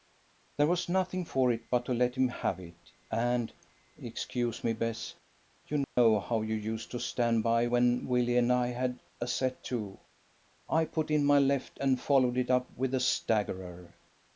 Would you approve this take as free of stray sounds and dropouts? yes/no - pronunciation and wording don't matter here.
no